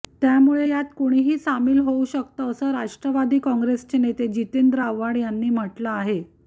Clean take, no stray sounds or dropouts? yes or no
yes